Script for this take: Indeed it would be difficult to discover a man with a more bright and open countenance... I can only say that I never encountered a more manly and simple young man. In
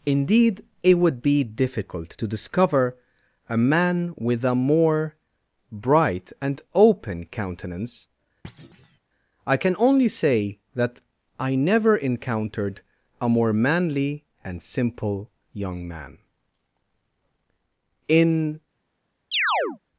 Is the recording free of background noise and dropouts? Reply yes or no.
no